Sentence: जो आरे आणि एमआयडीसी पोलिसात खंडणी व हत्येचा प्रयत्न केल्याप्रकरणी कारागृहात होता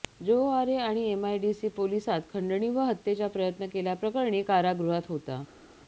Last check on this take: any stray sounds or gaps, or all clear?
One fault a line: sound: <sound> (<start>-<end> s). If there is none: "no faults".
no faults